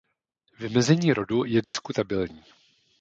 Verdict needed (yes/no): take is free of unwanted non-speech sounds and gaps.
no